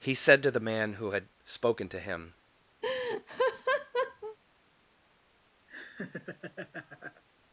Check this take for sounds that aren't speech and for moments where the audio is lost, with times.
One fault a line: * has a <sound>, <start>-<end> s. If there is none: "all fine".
* has a laugh, 2.8-4.4 s
* has a laugh, 5.7-7.2 s